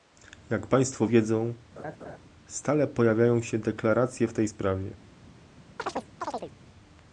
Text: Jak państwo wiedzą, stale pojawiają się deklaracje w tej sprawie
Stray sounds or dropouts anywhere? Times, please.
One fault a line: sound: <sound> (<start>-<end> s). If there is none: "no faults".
sound: laugh (1.8-2.2 s)
sound: chirp (5.8-6.5 s)